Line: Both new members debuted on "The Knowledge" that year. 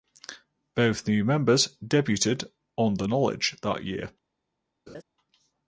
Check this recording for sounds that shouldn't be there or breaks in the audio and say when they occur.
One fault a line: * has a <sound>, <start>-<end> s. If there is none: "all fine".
* has a laugh, 4.9-5.0 s